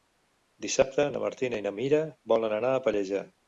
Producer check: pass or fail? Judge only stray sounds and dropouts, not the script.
pass